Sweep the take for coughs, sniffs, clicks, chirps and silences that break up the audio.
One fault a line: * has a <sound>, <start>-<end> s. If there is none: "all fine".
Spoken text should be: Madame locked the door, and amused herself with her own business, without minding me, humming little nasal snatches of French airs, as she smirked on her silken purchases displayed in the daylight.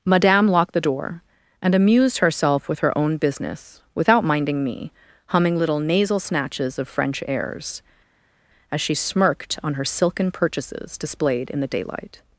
all fine